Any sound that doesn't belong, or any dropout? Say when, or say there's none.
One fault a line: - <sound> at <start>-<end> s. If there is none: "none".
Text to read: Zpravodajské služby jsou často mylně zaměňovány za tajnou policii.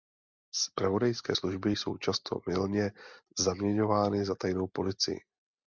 none